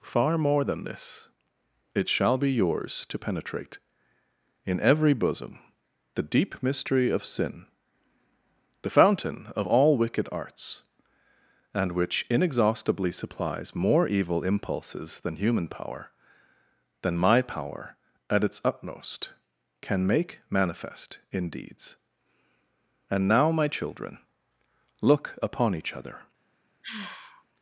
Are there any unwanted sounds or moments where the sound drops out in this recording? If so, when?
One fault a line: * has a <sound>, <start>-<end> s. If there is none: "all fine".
* has a sigh, 26.8-27.4 s